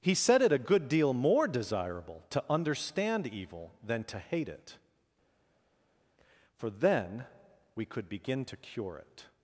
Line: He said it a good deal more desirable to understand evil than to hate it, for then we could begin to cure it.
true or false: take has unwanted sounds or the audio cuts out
false